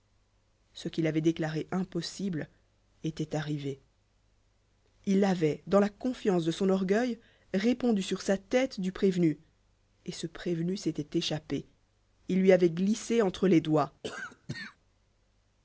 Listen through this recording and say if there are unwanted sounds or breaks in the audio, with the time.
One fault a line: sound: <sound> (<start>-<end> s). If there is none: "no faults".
sound: cough (14.0-14.8 s)